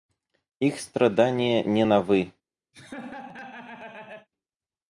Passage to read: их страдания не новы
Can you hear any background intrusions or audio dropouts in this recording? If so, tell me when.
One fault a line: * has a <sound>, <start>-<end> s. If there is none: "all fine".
* has a laugh, 2.7-4.3 s